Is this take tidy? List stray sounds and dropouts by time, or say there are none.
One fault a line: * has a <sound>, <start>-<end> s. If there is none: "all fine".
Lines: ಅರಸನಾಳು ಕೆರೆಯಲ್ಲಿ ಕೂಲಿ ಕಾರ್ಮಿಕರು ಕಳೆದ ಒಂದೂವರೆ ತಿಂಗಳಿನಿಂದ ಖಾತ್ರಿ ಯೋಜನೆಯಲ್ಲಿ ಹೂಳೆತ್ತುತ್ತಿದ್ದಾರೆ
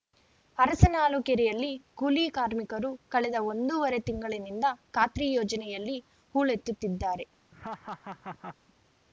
* has a laugh, 7.5-8.6 s